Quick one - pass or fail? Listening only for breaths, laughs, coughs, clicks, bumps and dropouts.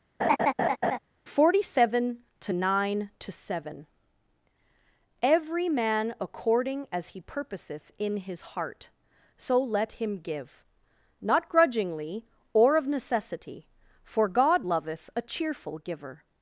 fail